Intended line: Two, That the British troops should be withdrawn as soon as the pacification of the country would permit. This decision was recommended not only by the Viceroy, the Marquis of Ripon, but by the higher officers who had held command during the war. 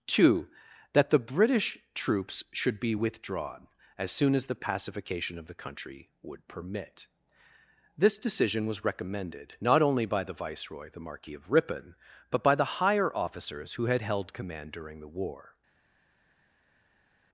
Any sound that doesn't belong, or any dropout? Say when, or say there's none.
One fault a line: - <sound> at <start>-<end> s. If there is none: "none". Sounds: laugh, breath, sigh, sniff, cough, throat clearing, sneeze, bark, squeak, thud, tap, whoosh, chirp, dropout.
none